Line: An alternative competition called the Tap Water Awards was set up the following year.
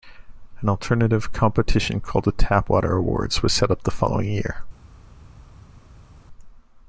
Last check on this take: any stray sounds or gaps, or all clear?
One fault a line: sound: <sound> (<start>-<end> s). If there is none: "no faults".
no faults